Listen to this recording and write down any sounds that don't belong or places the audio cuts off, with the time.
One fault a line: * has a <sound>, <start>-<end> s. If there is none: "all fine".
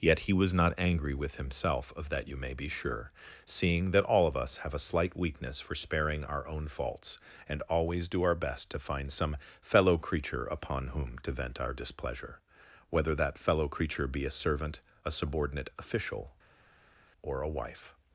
all fine